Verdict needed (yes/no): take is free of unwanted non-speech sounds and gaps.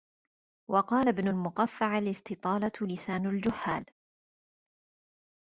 yes